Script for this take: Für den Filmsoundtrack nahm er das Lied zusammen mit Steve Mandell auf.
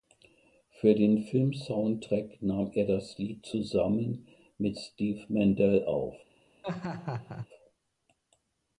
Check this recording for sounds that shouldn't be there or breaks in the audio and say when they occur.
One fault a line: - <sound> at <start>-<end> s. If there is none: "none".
- laugh at 6.6-7.5 s